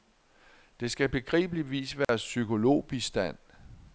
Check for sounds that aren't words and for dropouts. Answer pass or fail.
fail